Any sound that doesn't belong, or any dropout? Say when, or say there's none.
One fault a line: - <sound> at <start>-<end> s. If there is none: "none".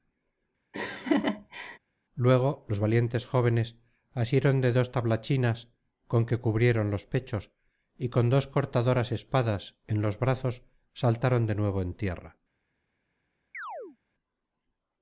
- laugh at 0.7-1.8 s
- chirp at 13.5-14.0 s